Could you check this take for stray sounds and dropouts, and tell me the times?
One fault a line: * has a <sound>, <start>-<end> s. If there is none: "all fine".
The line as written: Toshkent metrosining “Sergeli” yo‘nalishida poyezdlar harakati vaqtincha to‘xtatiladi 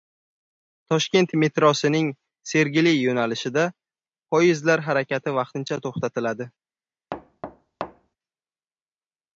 * has a thud, 7.1-8.2 s